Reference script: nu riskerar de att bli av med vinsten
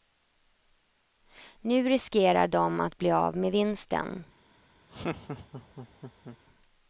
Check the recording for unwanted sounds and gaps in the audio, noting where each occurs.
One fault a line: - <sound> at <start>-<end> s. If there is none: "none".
- laugh at 4.9-6.4 s